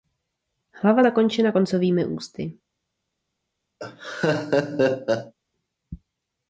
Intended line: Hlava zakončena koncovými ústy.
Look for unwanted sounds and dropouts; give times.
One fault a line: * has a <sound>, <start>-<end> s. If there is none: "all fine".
* has a laugh, 3.8-5.3 s